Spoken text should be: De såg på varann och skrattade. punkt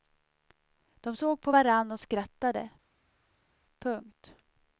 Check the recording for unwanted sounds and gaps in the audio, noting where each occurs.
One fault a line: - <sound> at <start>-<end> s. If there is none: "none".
none